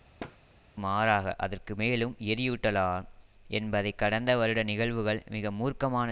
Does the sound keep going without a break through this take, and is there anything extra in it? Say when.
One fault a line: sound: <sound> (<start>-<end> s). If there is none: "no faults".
sound: thud (0.2-0.4 s)